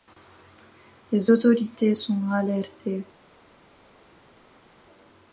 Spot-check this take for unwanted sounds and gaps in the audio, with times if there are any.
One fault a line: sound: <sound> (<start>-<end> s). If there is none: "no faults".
no faults